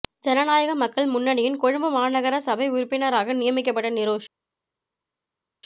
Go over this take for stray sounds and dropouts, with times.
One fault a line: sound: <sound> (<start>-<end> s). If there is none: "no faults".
no faults